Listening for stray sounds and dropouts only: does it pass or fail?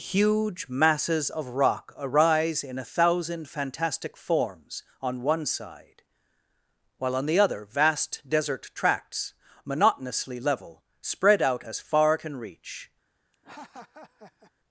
fail